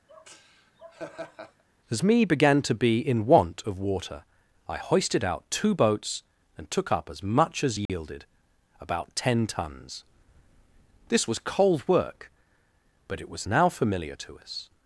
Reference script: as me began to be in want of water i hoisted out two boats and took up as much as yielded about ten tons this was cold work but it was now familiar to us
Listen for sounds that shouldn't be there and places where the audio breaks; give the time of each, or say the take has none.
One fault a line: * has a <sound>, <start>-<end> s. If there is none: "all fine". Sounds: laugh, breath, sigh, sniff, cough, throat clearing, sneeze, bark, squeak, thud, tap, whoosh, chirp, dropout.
* has a laugh, 0.1-1.6 s
* has a dropout, 7.9-7.9 s